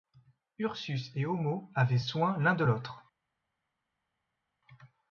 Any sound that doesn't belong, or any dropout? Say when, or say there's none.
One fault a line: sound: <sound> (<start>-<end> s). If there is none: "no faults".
no faults